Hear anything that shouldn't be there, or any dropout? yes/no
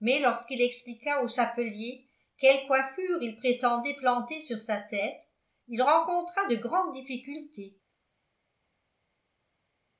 no